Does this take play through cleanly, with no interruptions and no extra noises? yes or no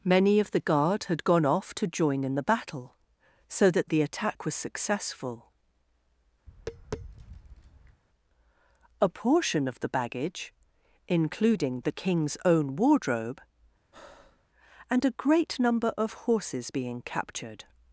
no